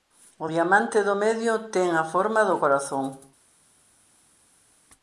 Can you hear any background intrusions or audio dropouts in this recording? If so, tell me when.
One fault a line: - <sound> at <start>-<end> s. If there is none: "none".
none